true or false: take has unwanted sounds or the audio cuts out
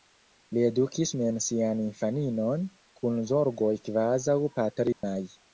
true